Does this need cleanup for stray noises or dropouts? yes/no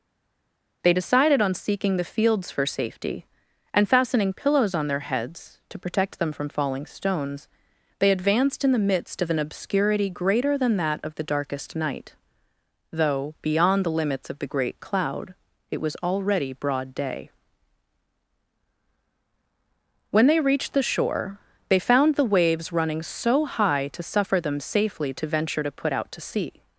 no